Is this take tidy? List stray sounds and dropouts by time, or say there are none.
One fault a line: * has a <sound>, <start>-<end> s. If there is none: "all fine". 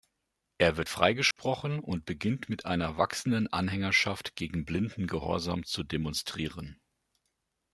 * has a dropout, 1.3-1.4 s